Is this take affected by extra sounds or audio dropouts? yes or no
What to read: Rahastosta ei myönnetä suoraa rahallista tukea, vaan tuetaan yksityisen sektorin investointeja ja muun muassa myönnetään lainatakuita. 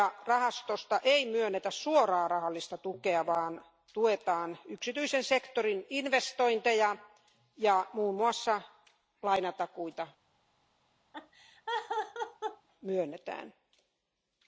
yes